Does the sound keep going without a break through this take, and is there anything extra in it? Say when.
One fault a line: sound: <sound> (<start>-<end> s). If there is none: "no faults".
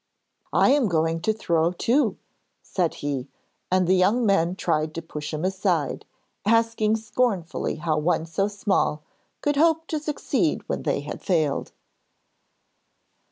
no faults